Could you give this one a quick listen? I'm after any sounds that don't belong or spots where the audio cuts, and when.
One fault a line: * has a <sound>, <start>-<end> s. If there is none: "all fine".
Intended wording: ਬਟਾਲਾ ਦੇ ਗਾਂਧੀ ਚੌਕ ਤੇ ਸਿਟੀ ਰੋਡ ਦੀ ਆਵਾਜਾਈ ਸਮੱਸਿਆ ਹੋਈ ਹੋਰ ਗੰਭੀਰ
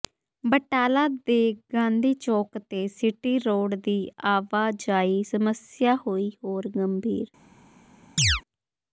* has a chirp, 8.2-8.4 s